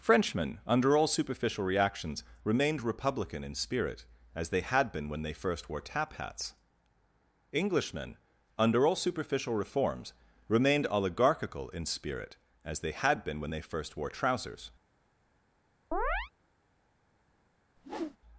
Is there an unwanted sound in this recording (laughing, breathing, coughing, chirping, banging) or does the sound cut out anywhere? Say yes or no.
yes